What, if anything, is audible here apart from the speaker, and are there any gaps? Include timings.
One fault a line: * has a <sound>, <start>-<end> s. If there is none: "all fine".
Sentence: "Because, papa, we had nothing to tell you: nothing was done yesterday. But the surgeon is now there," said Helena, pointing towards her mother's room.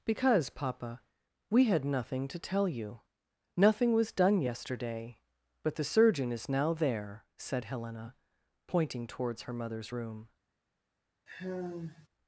* has a sigh, 11.3-12.1 s